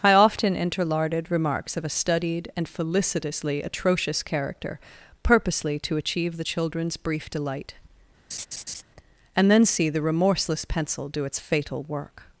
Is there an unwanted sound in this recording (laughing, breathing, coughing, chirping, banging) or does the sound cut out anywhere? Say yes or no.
yes